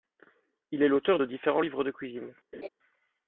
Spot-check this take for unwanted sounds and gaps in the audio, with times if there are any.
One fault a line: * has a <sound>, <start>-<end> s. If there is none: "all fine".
* has a laugh, 2.5-2.7 s